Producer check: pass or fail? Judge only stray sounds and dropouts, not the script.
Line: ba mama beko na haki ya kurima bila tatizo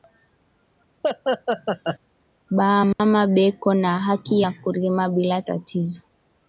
fail